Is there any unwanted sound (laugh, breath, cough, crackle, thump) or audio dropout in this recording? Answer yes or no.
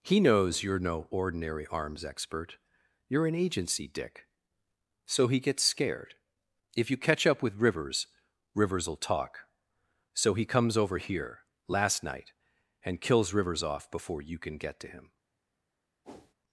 yes